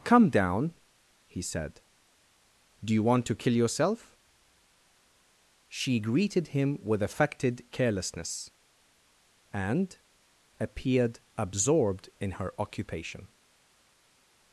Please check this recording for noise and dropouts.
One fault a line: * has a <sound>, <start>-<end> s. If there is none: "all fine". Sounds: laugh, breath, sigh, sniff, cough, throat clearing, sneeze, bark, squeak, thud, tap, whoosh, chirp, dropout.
all fine